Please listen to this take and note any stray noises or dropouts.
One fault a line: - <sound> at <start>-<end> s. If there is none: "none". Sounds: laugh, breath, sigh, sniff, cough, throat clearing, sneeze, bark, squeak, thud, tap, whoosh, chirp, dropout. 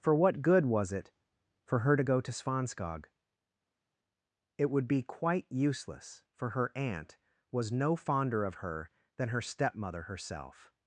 none